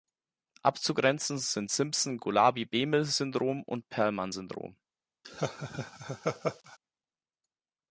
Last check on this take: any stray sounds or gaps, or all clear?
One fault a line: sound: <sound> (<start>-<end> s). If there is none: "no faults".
sound: laugh (5.2-6.8 s)